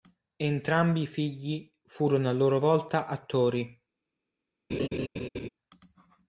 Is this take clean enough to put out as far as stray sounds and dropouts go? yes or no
no